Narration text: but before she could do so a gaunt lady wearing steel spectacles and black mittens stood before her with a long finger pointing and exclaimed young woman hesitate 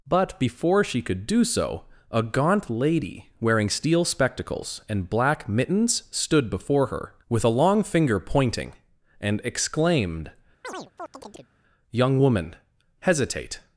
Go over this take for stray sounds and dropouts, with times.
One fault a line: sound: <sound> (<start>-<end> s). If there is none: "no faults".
sound: chirp (10.6-11.5 s)